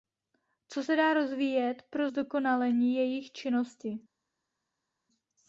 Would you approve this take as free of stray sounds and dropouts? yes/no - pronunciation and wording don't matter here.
yes